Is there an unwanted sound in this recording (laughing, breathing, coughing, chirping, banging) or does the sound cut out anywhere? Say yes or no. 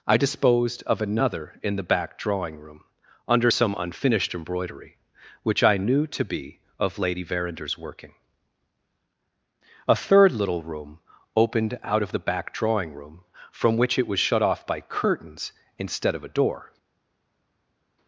no